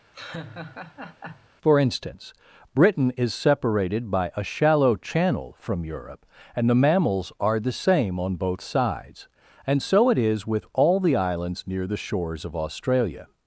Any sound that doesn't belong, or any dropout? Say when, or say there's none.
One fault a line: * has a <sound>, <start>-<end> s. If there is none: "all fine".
* has a laugh, 0.1-1.5 s